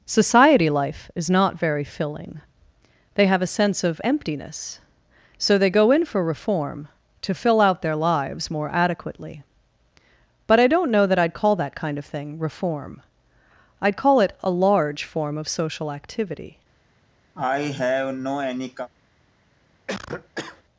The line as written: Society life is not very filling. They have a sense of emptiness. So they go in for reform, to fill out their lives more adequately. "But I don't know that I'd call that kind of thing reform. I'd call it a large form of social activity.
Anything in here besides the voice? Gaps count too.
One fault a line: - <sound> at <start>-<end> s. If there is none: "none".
- cough at 17.3-18.9 s
- cough at 19.9-20.6 s